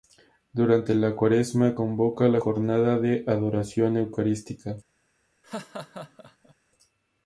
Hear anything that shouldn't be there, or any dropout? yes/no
yes